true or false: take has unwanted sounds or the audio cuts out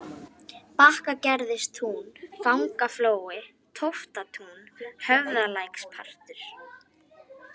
false